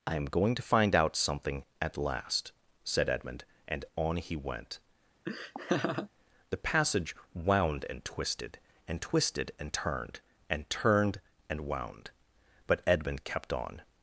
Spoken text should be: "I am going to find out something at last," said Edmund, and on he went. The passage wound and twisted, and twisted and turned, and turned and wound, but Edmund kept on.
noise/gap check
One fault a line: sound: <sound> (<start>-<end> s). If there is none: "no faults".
sound: laugh (5.3-6.1 s)